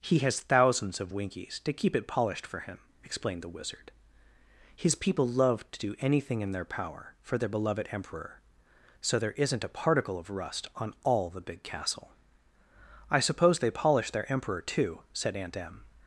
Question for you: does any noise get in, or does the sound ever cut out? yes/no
no